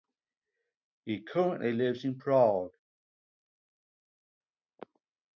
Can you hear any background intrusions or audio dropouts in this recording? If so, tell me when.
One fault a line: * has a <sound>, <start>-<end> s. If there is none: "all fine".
all fine